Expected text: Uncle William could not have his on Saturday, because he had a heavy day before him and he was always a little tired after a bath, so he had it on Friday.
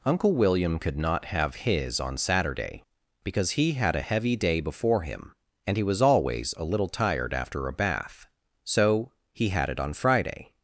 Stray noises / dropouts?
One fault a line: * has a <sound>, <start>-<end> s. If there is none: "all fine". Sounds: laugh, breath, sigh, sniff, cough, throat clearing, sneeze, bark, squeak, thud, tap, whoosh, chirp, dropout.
all fine